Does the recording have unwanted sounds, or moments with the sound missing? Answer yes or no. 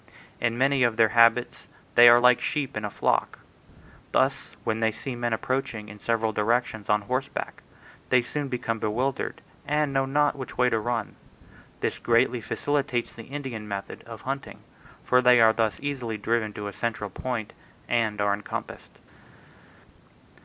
no